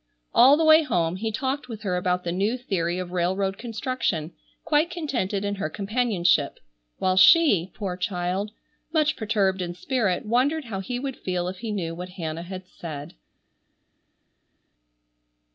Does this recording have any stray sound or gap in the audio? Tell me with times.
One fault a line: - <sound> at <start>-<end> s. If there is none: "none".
none